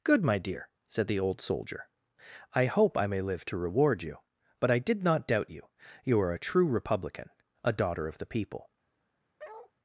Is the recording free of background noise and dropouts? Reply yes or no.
no